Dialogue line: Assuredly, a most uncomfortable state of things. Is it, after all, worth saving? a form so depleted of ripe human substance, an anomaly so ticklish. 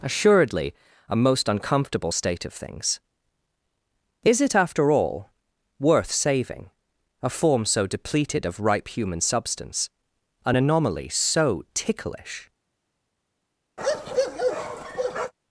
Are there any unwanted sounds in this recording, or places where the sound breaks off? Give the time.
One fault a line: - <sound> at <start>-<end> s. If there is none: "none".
- bark at 13.8-15.3 s